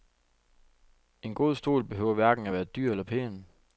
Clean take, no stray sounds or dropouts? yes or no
yes